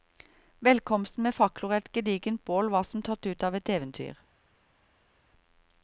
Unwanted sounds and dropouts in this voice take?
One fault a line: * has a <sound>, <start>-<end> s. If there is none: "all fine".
all fine